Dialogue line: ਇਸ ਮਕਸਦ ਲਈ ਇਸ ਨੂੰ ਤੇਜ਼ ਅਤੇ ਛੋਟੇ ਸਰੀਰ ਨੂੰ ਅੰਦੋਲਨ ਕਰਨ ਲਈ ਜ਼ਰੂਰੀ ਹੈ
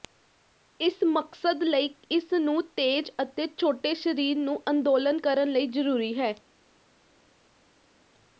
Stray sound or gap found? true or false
false